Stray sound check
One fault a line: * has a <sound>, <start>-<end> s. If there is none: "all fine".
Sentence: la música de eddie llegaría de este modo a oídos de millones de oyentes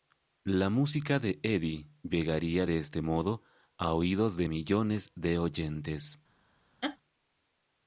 * has a laugh, 6.8-7.0 s